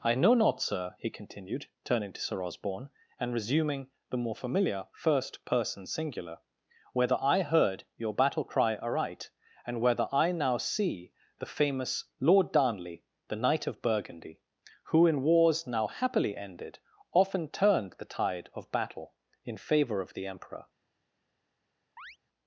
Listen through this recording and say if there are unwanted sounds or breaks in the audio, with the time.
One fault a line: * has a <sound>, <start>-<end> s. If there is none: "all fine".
* has a chirp, 22.0-22.2 s